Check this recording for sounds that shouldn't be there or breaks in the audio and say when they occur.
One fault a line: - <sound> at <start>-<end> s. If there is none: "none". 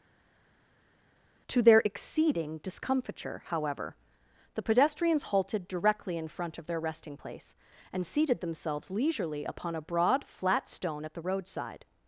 none